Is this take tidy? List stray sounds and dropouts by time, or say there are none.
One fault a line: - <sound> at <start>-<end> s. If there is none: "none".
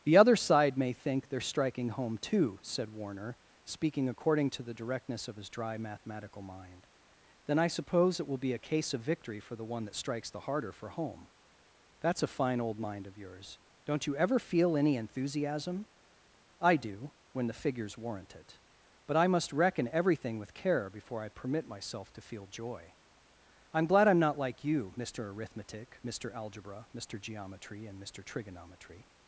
none